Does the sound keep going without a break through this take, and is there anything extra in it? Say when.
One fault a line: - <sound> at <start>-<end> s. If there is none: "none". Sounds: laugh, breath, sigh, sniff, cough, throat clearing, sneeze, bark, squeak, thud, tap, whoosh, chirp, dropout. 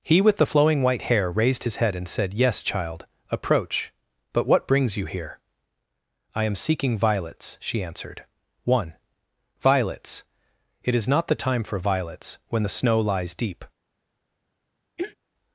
- throat clearing at 15.0-15.2 s